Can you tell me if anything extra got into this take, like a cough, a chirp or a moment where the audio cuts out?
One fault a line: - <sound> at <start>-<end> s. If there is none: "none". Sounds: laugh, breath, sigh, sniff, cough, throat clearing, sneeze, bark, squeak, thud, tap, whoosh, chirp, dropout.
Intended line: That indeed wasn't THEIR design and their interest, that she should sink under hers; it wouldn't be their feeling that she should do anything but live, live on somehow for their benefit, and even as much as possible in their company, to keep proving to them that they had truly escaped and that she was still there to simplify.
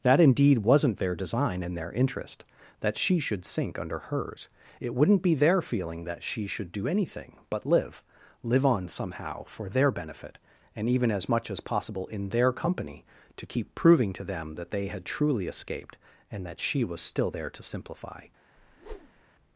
- whoosh at 18.6-19.2 s